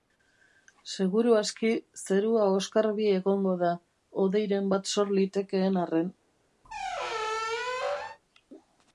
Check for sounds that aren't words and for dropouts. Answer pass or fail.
fail